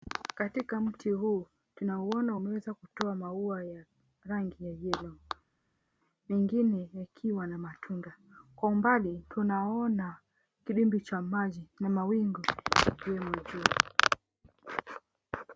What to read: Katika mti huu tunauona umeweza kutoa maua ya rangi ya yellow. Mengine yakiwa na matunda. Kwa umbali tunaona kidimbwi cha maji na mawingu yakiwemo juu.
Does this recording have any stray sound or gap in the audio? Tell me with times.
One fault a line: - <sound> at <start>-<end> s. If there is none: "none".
none